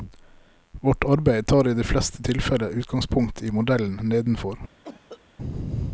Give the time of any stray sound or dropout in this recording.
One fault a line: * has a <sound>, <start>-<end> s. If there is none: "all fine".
* has a cough, 4.8-5.2 s